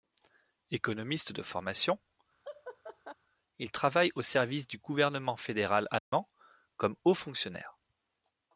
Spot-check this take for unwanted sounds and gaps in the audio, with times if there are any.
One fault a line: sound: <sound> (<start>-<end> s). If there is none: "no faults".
sound: laugh (2.4-3.1 s)
sound: dropout (6.0-6.1 s)